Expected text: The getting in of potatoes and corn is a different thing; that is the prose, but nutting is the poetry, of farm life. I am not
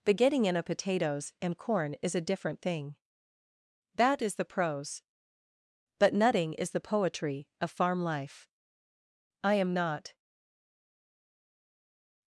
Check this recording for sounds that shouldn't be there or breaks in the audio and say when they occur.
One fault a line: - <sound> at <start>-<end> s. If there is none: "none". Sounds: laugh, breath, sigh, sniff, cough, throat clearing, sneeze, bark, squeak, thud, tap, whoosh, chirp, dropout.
none